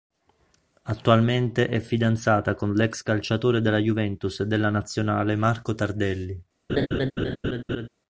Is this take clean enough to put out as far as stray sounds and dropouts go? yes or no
no